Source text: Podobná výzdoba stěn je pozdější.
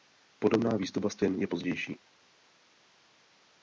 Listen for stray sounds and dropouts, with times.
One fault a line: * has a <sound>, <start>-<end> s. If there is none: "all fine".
all fine